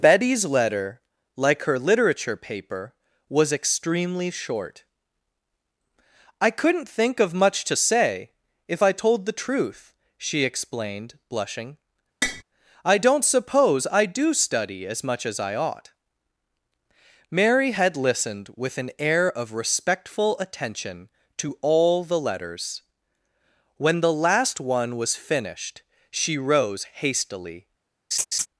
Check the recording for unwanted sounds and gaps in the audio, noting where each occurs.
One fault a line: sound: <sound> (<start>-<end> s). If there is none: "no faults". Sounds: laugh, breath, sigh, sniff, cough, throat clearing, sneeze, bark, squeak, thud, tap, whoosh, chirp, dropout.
sound: tap (12.2-12.4 s)
sound: laugh (28.1-28.5 s)